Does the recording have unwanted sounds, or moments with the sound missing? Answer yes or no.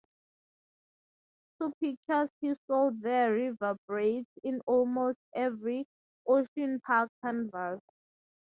no